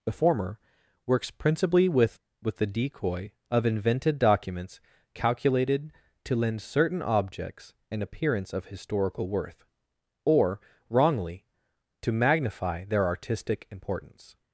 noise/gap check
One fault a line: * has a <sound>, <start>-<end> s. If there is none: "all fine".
all fine